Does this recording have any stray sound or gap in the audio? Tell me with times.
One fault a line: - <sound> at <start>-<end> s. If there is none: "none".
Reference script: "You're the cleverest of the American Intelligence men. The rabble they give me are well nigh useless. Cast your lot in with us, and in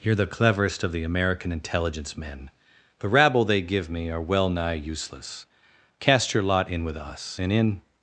none